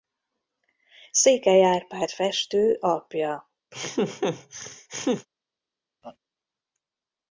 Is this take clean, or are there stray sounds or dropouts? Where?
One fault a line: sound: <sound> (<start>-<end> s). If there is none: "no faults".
sound: laugh (3.7-5.3 s)
sound: laugh (6.0-6.2 s)